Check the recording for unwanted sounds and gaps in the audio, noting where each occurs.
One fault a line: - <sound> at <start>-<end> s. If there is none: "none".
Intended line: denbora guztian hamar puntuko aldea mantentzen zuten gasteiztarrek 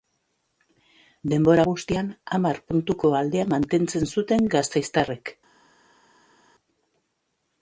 none